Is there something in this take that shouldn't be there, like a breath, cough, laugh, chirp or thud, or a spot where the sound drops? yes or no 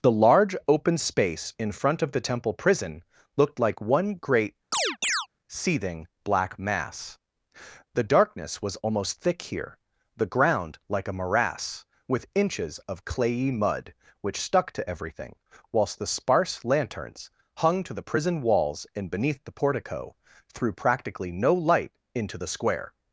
yes